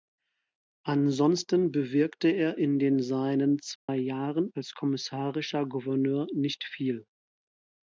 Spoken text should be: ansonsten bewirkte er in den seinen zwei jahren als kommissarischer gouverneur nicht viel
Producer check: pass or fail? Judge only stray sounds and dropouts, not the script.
fail